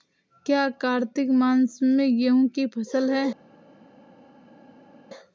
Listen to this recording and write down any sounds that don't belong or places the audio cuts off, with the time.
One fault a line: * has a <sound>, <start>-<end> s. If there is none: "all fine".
all fine